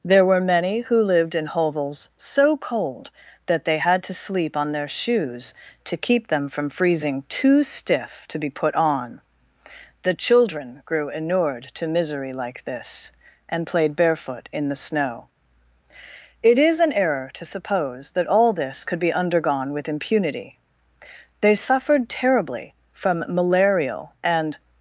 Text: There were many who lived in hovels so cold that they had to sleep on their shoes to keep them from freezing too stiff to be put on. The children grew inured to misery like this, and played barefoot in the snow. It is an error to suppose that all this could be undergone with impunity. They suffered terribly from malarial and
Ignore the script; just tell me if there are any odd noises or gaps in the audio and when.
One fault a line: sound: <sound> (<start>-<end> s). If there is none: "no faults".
no faults